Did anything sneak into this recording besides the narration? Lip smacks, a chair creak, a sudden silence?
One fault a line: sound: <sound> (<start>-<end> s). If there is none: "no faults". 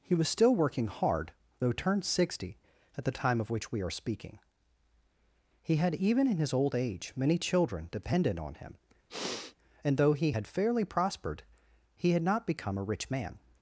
sound: sniff (9.1-9.6 s)